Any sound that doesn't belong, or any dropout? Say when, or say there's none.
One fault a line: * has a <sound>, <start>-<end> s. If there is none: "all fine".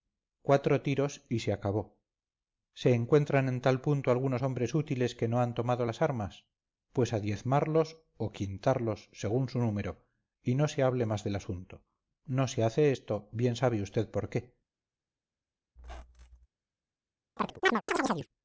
* has a squeak, 15.8-16.5 s
* has a chirp, 17.4-18.3 s